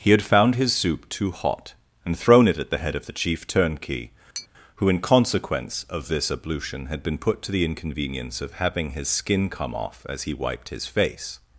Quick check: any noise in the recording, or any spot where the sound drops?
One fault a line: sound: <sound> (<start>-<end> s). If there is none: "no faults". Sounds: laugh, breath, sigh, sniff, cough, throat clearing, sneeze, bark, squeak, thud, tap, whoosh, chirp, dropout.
sound: tap (4.3-4.5 s)